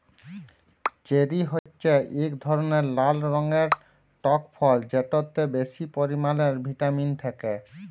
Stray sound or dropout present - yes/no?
yes